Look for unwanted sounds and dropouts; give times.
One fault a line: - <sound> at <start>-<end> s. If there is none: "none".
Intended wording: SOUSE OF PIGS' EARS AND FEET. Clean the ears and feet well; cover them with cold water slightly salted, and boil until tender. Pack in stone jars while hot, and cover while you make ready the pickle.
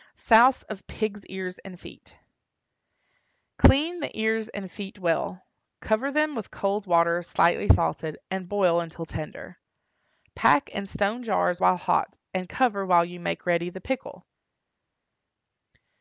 none